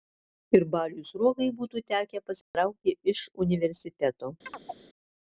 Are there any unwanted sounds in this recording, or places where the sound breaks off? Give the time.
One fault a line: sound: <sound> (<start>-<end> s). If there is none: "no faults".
sound: dropout (2.4-2.5 s)
sound: chirp (4.5-4.8 s)